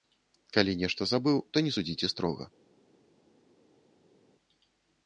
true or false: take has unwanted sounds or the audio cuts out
false